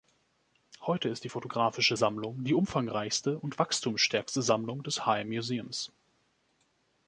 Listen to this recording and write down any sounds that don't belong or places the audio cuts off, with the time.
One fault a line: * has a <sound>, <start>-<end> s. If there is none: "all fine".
all fine